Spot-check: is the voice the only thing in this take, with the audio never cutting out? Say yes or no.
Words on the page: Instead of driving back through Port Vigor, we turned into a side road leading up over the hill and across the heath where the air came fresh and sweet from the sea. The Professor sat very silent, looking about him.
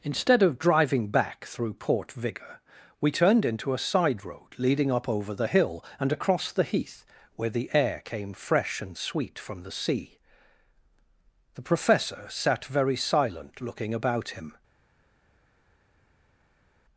yes